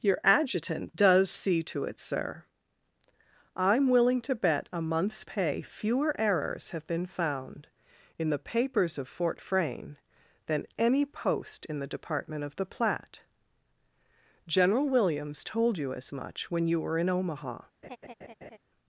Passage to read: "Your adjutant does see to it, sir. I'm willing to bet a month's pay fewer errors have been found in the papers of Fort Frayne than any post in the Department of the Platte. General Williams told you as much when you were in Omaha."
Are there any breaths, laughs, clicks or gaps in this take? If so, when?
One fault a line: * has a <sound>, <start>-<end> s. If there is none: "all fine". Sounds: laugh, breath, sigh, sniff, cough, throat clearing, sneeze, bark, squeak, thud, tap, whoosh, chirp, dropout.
* has a laugh, 17.8-18.6 s